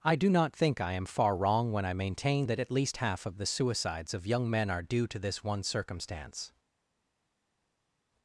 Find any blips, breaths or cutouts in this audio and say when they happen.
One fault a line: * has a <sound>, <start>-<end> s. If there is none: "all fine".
all fine